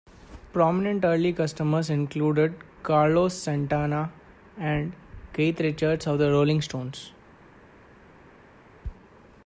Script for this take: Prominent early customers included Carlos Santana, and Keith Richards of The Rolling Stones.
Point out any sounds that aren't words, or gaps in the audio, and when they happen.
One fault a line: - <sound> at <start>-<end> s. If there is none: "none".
none